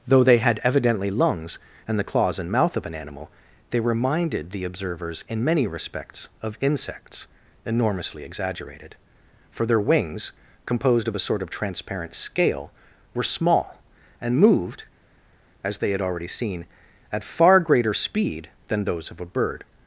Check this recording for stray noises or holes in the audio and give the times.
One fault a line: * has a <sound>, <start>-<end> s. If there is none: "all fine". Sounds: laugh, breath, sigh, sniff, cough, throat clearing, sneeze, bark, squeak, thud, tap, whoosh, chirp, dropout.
all fine